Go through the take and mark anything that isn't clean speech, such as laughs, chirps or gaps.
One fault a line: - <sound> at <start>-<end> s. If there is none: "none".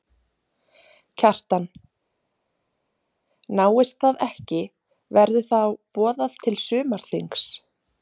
none